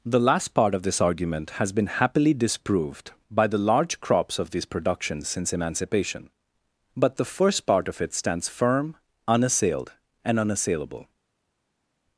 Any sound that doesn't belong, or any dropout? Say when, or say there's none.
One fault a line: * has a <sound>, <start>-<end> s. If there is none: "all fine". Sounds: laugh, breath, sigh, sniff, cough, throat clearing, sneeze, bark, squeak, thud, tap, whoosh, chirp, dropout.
all fine